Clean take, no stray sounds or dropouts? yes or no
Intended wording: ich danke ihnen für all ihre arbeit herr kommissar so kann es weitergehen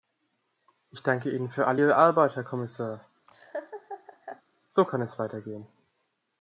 no